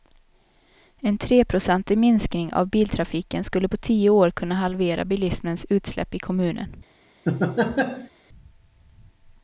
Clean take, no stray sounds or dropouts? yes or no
no